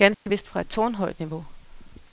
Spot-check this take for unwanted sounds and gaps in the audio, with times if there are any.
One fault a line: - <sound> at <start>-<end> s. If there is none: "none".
- dropout at 0.1-0.3 s